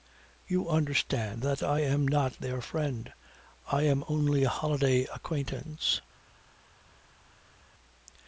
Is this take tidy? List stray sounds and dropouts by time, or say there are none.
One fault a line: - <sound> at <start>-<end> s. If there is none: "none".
none